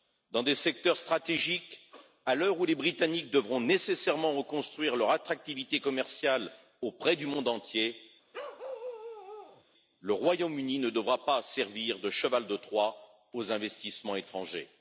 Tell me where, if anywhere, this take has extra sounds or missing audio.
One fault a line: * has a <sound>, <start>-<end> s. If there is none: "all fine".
* has a bark, 8.3-9.6 s